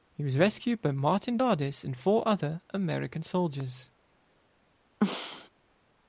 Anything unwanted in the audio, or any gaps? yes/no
yes